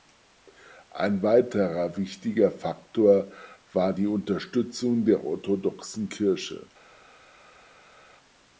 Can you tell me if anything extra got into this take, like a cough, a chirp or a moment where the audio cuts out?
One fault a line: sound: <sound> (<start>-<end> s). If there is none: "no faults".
no faults